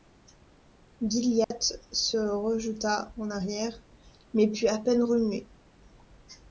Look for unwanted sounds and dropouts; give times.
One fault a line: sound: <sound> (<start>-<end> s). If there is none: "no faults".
sound: dropout (1.4-1.5 s)